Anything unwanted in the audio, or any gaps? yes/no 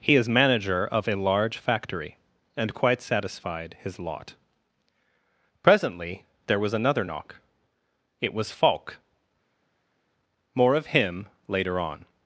no